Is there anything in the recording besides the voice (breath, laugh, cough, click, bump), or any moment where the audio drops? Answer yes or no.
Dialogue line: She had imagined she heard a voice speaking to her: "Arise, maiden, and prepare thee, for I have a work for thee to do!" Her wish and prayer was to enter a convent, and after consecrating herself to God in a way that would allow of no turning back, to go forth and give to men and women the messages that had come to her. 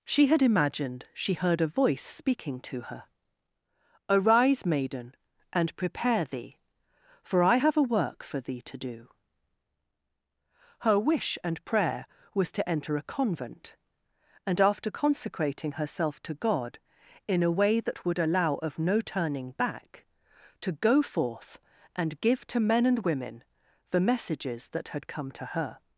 no